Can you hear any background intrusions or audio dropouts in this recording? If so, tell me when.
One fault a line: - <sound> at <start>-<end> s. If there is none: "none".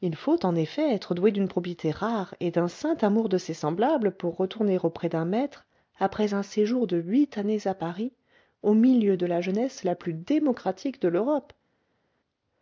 none